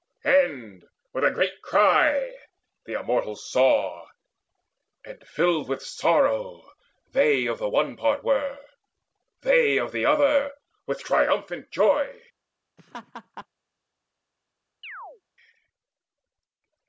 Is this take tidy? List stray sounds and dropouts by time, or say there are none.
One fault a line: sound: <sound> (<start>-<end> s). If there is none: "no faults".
sound: laugh (12.8-13.5 s)
sound: chirp (14.8-15.2 s)